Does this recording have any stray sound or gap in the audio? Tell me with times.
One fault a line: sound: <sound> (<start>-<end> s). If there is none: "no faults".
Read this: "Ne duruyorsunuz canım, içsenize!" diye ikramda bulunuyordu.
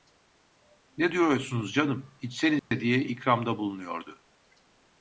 sound: dropout (2.6-2.7 s)